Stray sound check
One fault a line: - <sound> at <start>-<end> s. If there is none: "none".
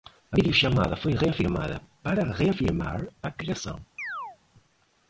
- chirp at 4.0-4.4 s